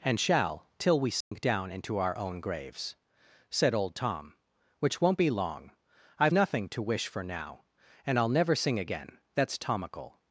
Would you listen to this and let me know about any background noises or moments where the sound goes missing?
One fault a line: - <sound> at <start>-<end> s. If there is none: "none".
- dropout at 1.2-1.3 s